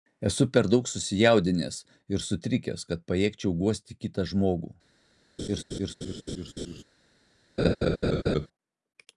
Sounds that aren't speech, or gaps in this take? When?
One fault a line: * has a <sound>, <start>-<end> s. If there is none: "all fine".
* has a laugh, 5.4-6.8 s
* has a laugh, 7.6-8.5 s